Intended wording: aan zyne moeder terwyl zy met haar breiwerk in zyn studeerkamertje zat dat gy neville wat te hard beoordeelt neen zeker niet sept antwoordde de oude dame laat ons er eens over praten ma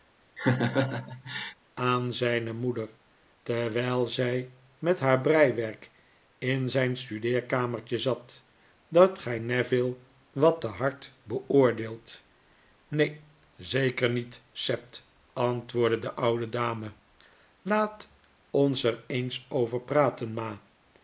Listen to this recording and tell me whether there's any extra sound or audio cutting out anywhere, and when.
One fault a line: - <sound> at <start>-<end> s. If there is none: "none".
- laugh at 0.4-1.6 s